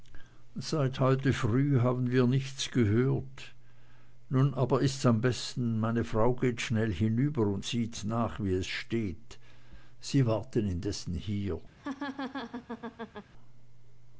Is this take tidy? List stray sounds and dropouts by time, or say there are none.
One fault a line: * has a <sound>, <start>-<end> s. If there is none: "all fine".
* has a laugh, 11.8-13.3 s